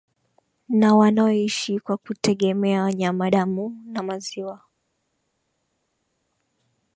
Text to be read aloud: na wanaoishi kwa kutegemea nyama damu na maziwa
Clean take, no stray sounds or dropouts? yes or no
yes